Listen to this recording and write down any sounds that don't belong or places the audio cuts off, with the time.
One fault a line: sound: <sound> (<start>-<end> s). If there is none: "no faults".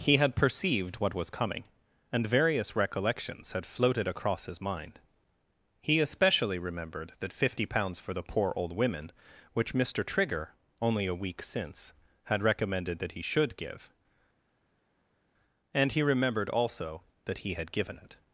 no faults